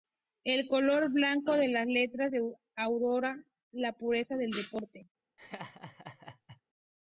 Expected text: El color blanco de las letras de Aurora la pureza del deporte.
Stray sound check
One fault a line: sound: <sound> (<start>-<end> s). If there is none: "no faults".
sound: laugh (5.4-6.6 s)